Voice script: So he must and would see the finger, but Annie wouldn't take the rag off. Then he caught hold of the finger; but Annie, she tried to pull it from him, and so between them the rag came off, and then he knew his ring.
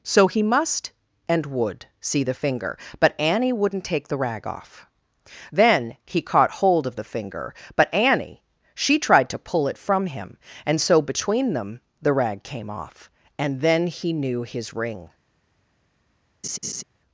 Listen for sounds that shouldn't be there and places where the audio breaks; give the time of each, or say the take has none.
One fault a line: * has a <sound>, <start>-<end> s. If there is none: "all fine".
* has a laugh, 16.4-16.8 s